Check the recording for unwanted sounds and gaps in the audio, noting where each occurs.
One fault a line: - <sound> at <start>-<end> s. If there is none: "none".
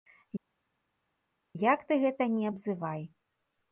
none